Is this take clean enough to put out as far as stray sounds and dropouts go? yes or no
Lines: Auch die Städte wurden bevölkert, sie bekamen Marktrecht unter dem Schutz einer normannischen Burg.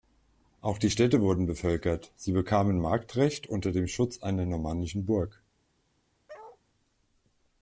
no